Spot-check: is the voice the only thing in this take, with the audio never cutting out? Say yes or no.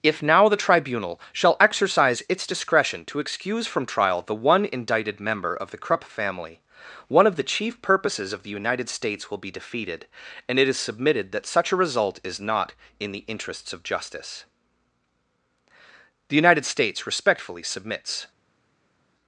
yes